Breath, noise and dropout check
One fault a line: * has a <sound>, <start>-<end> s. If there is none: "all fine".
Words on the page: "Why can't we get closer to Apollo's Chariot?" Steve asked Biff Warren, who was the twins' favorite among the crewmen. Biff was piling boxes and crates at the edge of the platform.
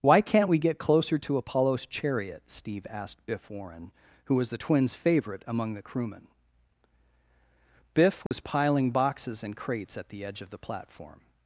* has a dropout, 8.3-8.3 s